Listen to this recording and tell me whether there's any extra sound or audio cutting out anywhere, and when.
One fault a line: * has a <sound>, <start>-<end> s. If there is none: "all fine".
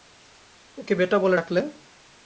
all fine